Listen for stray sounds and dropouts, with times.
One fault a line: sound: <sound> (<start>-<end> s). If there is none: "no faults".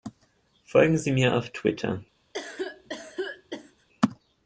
sound: cough (2.3-3.9 s)